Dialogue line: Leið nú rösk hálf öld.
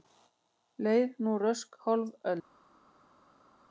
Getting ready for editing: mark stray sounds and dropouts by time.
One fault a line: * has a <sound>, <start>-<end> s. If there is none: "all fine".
all fine